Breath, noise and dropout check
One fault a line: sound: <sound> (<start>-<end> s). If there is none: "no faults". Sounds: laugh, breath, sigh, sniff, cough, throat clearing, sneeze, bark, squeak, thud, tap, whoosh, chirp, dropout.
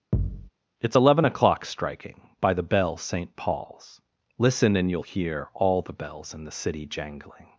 sound: thud (0.1-0.5 s)